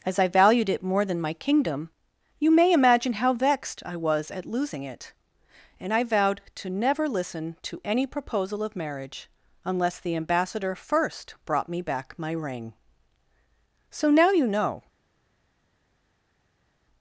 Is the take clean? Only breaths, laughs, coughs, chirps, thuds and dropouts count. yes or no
yes